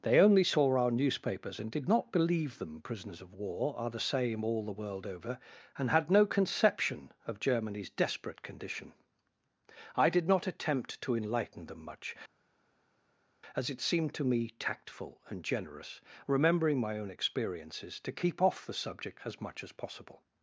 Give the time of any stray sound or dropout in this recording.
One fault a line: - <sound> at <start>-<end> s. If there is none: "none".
none